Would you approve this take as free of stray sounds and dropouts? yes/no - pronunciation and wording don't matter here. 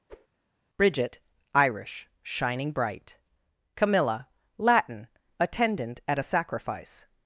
no